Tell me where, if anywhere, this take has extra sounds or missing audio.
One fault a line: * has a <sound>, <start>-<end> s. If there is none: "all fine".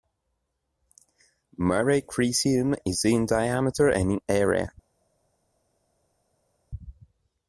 all fine